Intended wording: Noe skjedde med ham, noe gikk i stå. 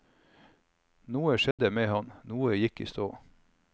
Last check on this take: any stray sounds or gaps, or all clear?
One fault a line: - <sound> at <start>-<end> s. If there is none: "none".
- dropout at 1.5-1.6 s